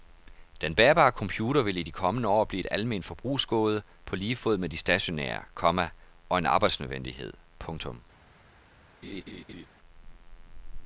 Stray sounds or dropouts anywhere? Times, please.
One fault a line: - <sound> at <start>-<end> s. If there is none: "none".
- laugh at 9.0-9.7 s